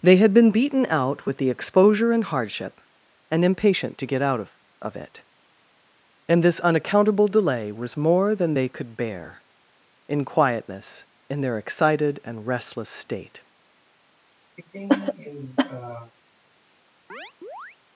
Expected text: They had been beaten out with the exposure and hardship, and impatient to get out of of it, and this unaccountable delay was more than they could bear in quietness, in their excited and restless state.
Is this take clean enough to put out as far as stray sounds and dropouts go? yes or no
no